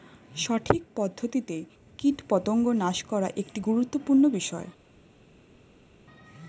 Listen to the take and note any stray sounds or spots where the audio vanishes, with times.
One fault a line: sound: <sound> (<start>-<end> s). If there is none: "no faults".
no faults